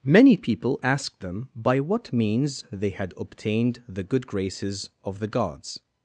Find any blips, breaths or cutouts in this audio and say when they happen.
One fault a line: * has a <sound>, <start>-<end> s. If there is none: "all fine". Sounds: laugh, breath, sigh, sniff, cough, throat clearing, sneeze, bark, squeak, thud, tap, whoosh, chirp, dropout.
all fine